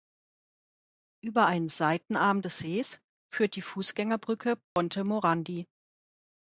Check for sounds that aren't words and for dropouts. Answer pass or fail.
fail